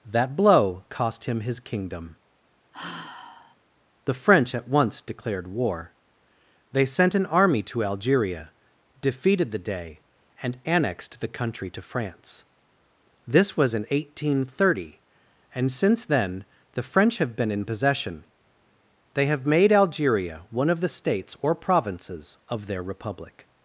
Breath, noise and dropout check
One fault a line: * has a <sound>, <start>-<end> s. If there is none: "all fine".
* has a sigh, 2.7-3.6 s